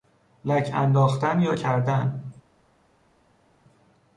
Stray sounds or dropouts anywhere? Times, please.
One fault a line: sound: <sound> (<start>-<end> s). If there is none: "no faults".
no faults